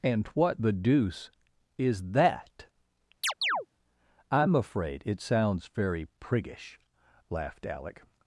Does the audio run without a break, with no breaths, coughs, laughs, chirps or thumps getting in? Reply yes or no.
no